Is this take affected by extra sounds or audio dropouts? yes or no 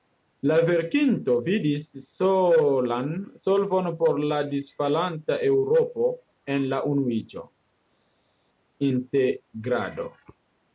no